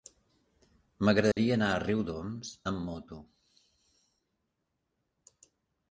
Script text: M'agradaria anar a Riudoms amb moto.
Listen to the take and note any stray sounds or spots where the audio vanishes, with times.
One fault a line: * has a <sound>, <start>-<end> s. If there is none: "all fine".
* has a dropout, 1.3-1.4 s